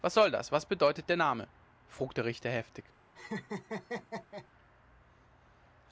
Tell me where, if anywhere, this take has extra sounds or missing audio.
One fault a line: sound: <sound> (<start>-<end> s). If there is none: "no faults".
sound: laugh (3.1-4.5 s)